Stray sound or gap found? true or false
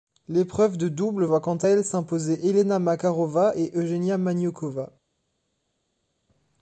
false